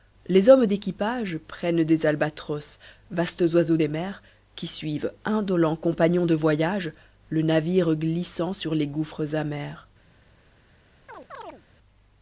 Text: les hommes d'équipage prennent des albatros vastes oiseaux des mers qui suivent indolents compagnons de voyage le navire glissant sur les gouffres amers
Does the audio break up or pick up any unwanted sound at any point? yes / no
yes